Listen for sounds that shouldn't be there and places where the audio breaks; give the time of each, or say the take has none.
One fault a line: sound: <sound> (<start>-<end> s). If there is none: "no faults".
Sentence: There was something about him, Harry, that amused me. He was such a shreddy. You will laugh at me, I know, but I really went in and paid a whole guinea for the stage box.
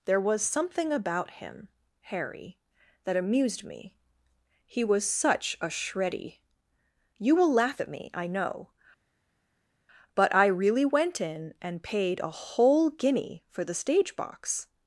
no faults